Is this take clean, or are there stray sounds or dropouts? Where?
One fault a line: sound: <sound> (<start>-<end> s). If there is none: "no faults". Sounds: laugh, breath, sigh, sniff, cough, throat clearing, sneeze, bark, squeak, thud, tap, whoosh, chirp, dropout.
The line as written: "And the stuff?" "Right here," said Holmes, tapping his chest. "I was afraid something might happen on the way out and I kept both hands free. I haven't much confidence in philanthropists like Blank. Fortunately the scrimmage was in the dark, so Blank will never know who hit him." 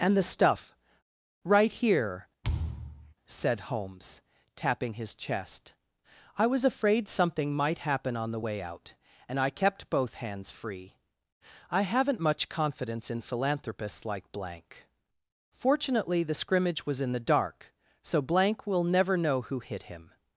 sound: thud (2.4-3.1 s)